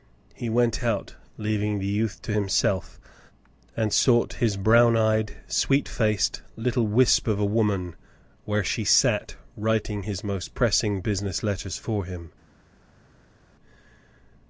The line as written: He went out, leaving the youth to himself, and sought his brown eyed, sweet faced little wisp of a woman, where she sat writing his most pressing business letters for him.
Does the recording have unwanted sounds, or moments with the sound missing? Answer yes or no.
no